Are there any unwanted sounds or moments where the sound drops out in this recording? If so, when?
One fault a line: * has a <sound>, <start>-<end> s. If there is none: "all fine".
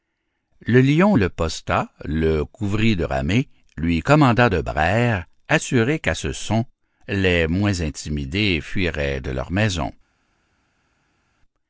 all fine